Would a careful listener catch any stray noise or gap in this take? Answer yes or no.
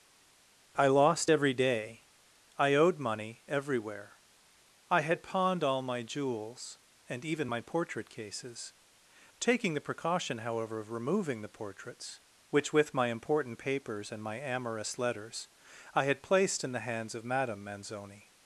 no